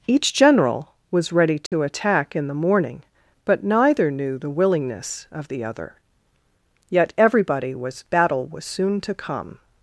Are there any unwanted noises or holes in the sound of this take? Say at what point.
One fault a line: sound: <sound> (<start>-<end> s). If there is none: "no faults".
sound: dropout (1.7-1.7 s)